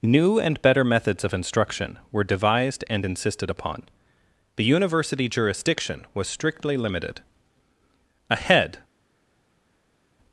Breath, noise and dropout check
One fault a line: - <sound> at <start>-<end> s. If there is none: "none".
none